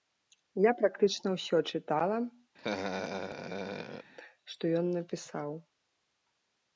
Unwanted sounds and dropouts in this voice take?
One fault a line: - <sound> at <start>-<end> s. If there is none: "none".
- laugh at 2.6-4.1 s